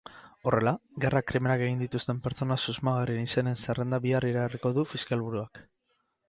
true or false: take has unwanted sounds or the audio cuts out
false